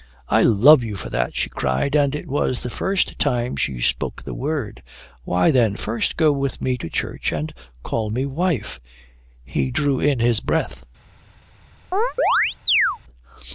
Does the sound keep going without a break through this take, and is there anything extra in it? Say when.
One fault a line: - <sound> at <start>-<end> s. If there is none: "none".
- chirp at 11.9-13.0 s